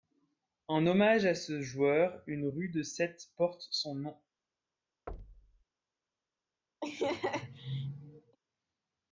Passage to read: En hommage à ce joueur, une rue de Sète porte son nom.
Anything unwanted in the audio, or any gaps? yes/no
yes